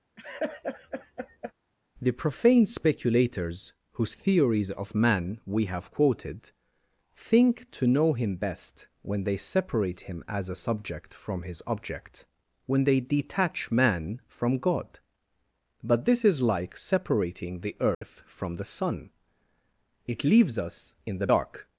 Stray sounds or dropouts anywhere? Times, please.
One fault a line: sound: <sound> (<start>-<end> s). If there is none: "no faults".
sound: laugh (0.2-1.5 s)
sound: dropout (17.9-18.0 s)